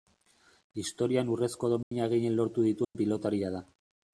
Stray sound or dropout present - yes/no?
yes